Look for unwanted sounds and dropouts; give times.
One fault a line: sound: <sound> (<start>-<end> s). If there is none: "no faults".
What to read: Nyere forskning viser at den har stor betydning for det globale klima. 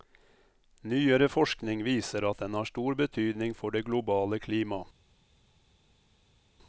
no faults